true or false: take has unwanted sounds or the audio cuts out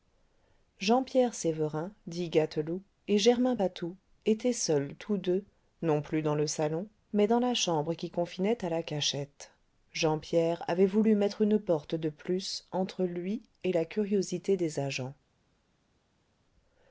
false